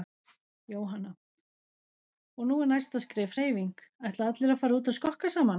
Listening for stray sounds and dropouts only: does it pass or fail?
pass